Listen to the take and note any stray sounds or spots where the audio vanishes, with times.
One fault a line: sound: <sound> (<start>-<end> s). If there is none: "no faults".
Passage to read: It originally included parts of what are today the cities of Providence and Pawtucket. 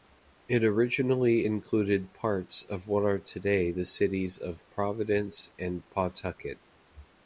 no faults